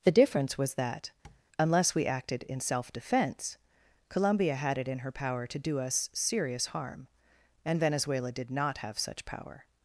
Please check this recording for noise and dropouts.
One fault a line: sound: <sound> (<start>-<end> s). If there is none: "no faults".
sound: tap (1.2-1.4 s)